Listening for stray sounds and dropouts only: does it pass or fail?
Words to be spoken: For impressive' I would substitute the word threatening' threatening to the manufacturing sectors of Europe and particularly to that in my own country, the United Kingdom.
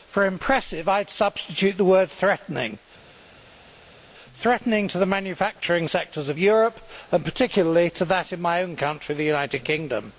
pass